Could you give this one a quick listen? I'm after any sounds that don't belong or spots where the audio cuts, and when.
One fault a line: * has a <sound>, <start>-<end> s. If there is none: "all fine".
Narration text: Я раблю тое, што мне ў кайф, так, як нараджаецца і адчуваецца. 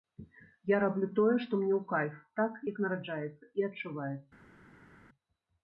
all fine